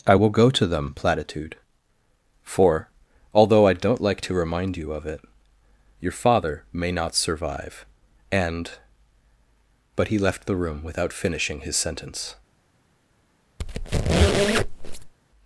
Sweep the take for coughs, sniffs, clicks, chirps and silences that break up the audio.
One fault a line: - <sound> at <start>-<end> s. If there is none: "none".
- squeak at 13.6-15.1 s